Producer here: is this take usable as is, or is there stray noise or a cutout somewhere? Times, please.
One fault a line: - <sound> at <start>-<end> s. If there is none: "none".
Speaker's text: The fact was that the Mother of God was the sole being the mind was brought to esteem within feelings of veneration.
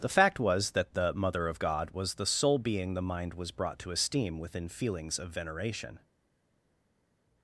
none